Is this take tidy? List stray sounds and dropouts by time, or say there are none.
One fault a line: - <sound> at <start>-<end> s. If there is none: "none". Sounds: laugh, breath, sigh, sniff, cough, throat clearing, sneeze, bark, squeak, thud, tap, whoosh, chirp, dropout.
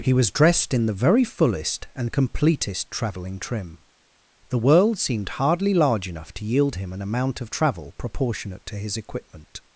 none